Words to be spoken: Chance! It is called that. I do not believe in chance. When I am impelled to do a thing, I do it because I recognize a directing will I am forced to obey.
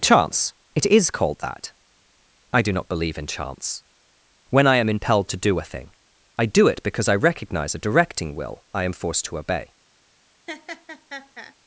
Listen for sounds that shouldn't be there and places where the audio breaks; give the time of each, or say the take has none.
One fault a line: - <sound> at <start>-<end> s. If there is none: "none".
- laugh at 10.5-11.5 s